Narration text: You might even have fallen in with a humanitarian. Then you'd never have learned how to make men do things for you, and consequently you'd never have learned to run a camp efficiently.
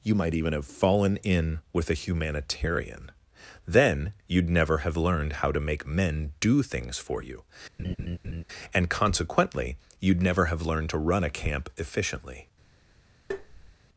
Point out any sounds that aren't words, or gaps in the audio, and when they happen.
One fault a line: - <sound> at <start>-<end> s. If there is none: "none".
- laugh at 7.8-8.4 s
- tap at 13.3-13.8 s